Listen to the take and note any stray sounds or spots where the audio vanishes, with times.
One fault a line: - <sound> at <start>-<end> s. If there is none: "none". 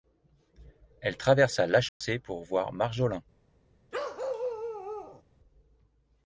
- dropout at 1.9-2.0 s
- bark at 3.9-5.2 s